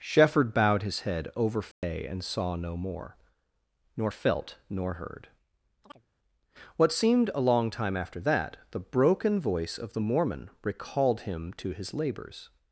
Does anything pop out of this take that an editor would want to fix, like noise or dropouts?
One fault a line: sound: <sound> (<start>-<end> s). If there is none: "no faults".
sound: dropout (1.7-1.8 s)
sound: chirp (5.8-6.1 s)